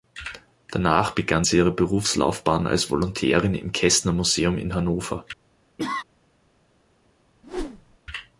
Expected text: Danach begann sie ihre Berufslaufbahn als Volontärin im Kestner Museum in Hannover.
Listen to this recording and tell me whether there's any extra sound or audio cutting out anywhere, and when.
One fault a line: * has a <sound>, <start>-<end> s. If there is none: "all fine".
* has a cough, 5.8-6.0 s
* has a whoosh, 7.4-8.0 s